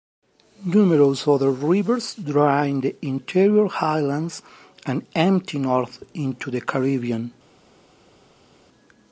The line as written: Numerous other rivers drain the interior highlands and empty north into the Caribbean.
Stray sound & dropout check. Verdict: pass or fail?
pass